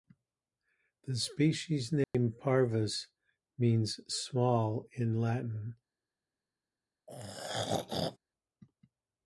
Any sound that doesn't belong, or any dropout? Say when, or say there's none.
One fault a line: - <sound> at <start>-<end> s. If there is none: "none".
- dropout at 2.0-2.1 s
- throat clearing at 7.1-8.2 s